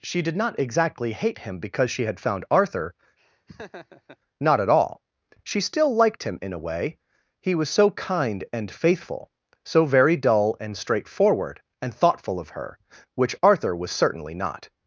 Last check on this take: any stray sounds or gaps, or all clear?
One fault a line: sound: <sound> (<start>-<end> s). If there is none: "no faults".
sound: laugh (3.2-4.2 s)